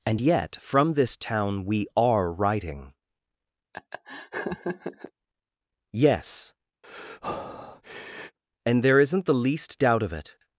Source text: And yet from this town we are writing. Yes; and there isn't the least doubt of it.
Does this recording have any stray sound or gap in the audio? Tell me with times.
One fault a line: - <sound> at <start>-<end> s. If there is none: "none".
- laugh at 3.7-5.1 s
- breath at 6.8-8.4 s